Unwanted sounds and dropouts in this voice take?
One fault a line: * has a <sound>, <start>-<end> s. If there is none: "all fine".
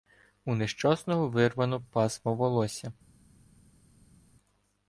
all fine